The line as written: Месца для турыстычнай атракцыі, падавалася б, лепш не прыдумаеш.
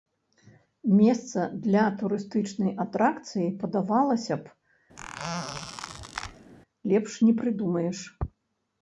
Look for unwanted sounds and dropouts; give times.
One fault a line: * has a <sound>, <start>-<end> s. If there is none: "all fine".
* has a squeak, 5.0-6.5 s